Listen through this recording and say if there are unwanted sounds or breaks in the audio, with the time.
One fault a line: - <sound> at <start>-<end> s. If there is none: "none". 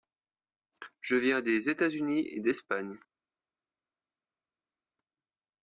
none